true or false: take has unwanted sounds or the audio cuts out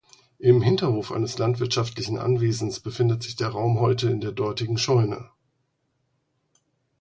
false